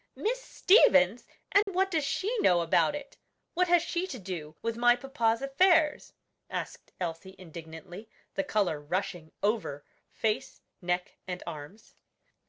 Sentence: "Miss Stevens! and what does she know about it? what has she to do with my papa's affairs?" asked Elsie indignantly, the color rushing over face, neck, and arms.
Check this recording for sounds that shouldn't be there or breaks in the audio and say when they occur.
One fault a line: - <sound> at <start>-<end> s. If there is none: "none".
- dropout at 1.6-1.7 s